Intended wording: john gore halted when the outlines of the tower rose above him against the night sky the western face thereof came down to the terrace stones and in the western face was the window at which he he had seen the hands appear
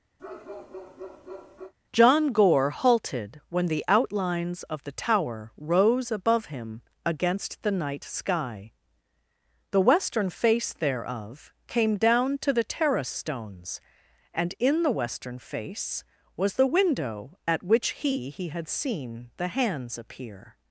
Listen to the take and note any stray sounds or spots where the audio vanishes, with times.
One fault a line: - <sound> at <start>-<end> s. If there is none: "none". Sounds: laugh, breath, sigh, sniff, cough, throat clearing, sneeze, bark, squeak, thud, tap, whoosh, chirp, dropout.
- bark at 0.2-1.7 s